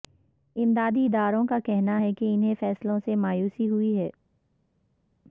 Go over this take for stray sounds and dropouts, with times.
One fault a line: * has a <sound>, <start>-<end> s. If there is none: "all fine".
all fine